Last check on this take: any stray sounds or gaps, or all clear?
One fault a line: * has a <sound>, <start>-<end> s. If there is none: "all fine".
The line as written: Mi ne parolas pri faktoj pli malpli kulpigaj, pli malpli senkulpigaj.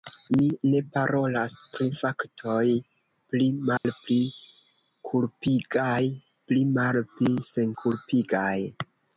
* has a dropout, 3.8-3.8 s